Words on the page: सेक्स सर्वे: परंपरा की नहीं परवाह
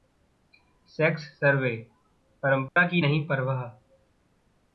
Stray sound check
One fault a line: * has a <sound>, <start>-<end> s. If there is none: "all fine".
* has a dropout, 2.7-2.8 s